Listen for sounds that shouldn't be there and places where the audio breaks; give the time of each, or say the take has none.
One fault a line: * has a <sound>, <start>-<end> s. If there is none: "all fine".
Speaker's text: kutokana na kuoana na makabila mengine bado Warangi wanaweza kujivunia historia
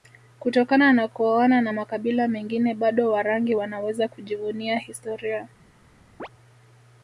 * has a chirp, 6.2-6.3 s